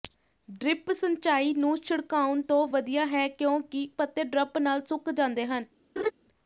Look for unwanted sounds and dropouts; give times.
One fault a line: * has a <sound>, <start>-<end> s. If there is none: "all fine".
* has a laugh, 6.0-6.1 s